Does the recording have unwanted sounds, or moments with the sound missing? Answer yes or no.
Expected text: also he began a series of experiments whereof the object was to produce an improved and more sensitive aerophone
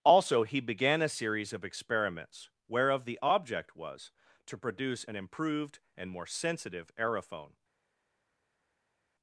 no